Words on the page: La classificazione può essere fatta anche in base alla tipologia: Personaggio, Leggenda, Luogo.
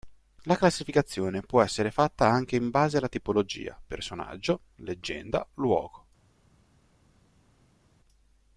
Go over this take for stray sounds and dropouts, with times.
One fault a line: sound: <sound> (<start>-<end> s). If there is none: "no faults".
no faults